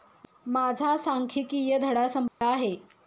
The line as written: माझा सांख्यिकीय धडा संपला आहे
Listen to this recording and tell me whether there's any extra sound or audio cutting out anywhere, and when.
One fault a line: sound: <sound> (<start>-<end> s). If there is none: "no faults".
sound: dropout (2.3-2.4 s)